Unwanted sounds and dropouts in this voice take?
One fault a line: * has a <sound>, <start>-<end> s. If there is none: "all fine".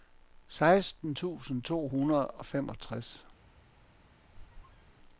* has a squeak, 4.3-5.0 s